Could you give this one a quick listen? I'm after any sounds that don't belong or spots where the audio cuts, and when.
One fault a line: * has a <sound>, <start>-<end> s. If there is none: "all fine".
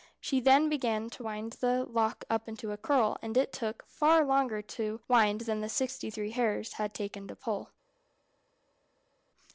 all fine